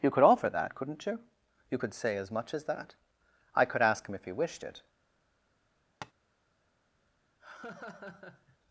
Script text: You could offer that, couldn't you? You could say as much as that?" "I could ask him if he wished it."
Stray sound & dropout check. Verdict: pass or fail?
fail